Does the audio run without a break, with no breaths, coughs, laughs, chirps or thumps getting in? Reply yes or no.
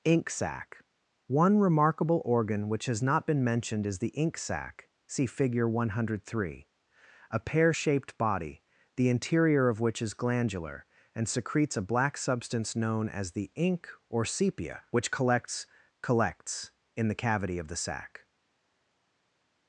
yes